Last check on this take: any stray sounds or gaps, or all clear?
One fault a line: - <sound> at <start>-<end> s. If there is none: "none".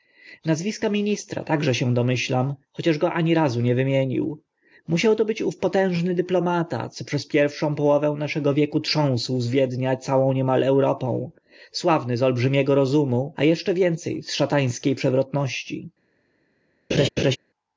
- laugh at 16.9-17.4 s